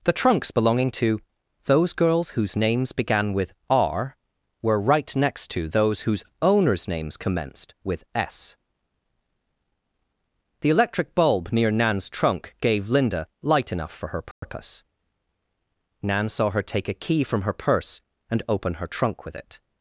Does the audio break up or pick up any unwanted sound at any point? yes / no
yes